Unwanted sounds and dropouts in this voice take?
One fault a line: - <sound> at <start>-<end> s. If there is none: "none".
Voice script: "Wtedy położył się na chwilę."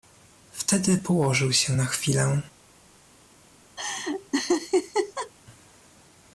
- laugh at 3.8-5.3 s